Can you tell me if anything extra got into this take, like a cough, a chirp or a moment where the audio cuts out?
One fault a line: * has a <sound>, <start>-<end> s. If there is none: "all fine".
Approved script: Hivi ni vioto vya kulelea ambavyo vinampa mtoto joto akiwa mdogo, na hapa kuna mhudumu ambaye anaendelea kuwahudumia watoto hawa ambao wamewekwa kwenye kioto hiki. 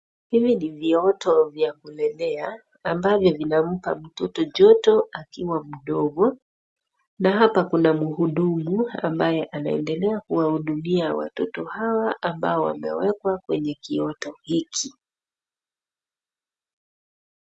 all fine